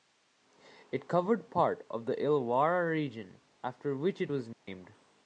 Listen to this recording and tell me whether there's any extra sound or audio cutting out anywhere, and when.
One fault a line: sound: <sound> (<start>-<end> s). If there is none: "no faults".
sound: dropout (4.5-4.7 s)